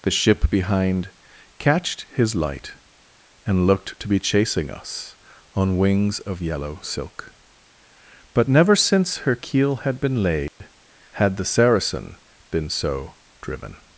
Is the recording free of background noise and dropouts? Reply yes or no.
no